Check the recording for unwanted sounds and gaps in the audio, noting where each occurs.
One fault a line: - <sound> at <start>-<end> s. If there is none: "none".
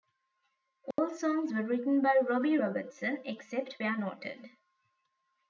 - dropout at 0.9-1.0 s